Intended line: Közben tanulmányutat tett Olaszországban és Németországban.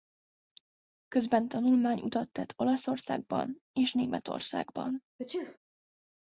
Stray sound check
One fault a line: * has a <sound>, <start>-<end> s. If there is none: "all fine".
* has a sneeze, 5.2-5.6 s